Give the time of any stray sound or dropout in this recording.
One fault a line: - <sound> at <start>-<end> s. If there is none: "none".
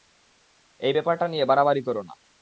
none